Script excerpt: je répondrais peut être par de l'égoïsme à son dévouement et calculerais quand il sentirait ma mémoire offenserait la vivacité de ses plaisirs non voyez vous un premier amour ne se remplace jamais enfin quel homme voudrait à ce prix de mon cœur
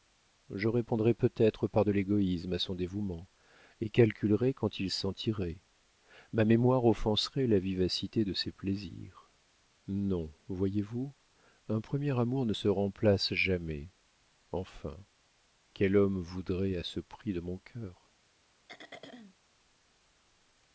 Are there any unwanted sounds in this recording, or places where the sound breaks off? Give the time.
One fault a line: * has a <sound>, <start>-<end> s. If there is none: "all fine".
* has a throat clearing, 18.7-19.3 s